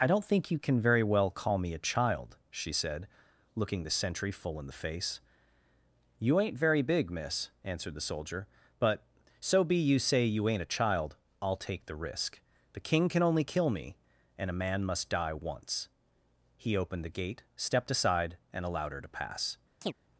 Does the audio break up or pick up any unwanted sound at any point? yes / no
yes